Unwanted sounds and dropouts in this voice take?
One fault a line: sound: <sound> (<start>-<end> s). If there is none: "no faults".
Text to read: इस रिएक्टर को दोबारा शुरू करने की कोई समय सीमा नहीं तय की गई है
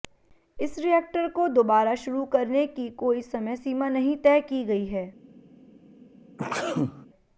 sound: sneeze (6.4-7.1 s)